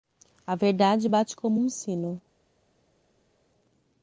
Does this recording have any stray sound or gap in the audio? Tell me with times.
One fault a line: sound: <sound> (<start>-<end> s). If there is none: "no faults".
no faults